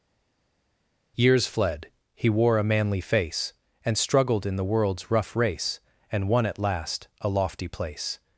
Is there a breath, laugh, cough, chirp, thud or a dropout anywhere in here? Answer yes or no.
no